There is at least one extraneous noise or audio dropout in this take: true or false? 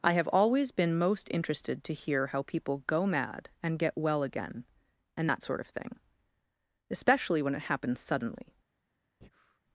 true